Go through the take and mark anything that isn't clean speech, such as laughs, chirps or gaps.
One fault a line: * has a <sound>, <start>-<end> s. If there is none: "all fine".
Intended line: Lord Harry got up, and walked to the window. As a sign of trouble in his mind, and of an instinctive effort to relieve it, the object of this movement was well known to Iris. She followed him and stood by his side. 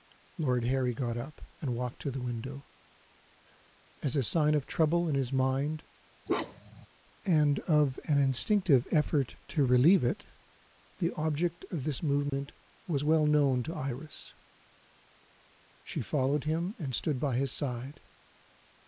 * has a bark, 6.3-6.9 s
* has a dropout, 12.3-12.3 s